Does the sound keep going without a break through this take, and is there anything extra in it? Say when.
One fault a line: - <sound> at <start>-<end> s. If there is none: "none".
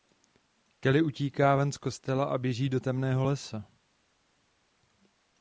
none